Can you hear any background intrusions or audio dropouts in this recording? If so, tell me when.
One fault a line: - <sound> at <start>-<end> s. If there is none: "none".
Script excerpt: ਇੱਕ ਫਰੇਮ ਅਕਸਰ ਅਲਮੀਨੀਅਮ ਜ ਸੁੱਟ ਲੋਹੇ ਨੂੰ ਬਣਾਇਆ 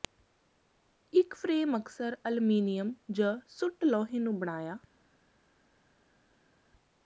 none